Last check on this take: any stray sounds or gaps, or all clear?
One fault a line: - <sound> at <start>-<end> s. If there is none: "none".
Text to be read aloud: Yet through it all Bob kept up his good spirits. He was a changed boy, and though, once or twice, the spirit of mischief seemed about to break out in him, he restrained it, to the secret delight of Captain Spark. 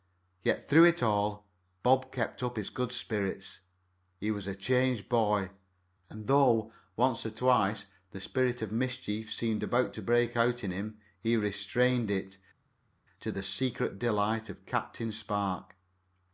none